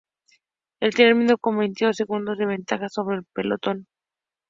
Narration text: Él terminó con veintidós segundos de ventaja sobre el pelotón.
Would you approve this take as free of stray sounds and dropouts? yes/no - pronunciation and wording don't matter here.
yes